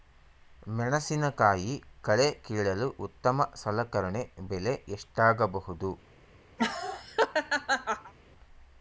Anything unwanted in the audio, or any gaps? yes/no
yes